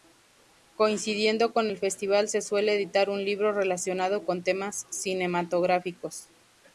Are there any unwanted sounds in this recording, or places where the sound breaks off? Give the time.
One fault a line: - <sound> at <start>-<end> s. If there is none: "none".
none